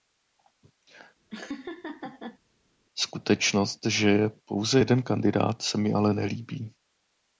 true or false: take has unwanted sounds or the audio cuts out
true